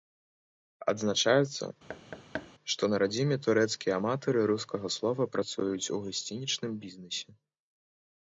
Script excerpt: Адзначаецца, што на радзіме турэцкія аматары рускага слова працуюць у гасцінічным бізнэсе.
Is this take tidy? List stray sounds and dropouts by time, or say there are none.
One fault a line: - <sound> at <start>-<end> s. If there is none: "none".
- thud at 1.9-2.5 s